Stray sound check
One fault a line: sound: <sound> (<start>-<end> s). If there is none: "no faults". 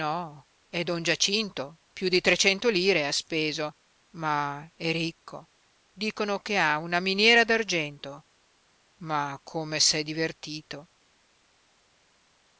no faults